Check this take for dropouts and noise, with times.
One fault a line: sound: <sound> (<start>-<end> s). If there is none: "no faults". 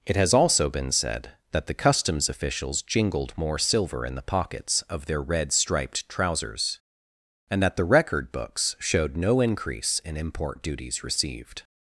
no faults